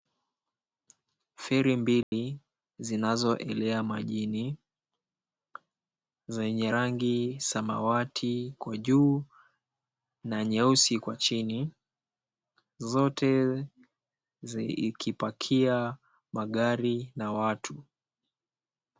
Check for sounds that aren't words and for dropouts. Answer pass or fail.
fail